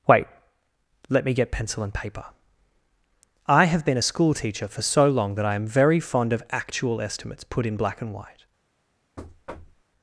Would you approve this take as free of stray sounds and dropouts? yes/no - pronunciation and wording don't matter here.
no